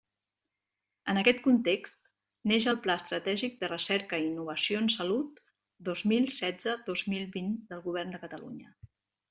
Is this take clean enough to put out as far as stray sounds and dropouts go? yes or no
yes